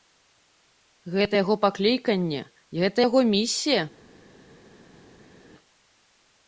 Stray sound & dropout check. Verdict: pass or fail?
pass